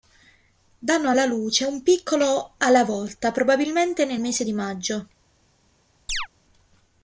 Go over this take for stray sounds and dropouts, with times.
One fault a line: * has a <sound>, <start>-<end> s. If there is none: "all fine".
* has a chirp, 6.1-6.3 s